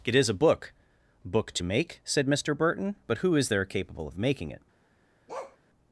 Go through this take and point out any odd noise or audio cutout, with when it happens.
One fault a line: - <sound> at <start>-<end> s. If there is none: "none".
- bark at 5.3-5.6 s